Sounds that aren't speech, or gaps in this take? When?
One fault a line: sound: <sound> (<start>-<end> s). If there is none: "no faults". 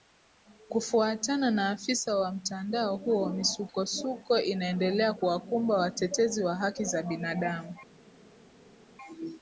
no faults